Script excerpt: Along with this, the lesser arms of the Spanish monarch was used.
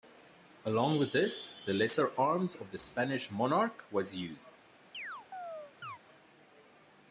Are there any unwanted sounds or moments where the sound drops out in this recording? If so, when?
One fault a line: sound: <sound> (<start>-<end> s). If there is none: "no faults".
sound: chirp (4.9-6.0 s)